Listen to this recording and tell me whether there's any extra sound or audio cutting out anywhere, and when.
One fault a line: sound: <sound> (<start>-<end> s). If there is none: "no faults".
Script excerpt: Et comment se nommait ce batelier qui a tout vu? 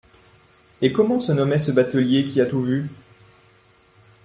no faults